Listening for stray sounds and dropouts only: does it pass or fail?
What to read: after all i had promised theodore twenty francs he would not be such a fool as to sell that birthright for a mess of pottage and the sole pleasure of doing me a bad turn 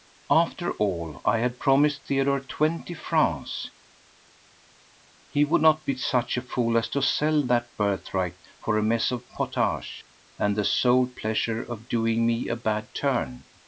pass